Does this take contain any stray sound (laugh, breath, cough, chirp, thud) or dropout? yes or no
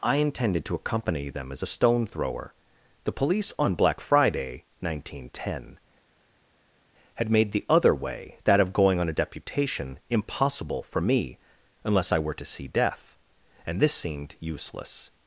no